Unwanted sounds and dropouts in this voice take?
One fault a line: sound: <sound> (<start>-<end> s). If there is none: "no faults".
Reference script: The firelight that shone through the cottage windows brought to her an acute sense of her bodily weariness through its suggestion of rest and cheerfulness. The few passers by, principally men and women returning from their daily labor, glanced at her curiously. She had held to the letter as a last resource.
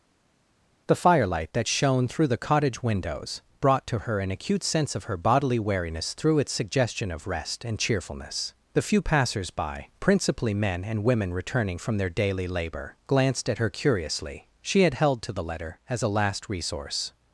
no faults